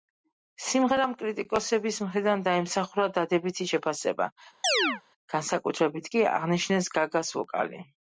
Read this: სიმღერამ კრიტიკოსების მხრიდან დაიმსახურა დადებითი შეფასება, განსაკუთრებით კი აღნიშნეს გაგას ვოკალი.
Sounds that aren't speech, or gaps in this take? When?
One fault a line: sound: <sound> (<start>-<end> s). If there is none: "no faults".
sound: chirp (4.6-5.0 s)